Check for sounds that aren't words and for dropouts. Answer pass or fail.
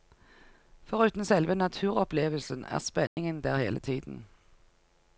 fail